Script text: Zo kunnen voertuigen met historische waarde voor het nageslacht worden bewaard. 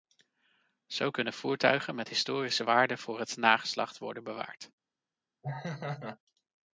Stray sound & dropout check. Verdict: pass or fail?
fail